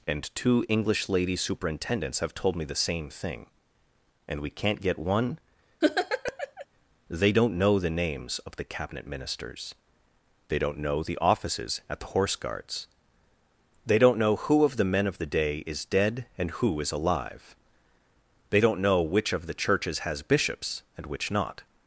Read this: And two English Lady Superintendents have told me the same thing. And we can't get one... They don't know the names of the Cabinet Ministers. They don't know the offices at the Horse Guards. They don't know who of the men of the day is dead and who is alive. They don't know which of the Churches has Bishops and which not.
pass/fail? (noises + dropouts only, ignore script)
fail